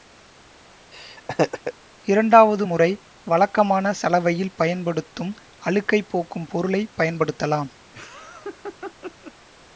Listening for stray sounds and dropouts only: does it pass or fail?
fail